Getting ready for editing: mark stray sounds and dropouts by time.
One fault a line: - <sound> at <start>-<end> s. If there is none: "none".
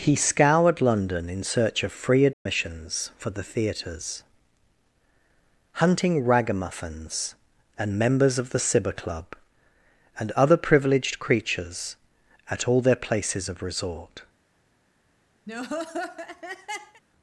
- dropout at 2.3-2.5 s
- laugh at 15.5-17.0 s